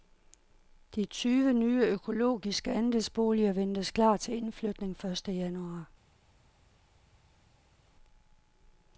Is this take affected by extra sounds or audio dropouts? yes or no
no